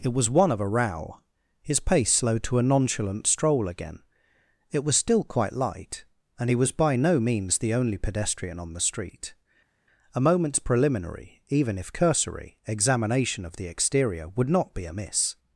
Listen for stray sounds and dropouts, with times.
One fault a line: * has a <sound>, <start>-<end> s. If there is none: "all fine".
all fine